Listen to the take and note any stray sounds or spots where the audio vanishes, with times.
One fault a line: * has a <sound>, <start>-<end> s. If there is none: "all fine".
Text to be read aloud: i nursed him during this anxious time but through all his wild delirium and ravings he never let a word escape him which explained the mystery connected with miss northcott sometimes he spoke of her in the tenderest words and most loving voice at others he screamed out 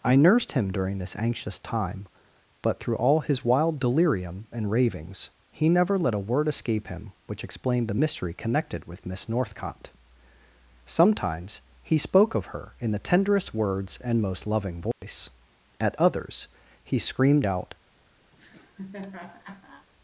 * has a dropout, 14.9-15.0 s
* has a laugh, 18.3-19.9 s